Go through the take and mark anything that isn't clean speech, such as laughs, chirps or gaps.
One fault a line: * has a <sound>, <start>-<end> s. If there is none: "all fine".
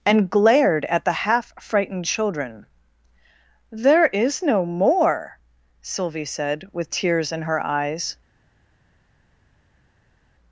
all fine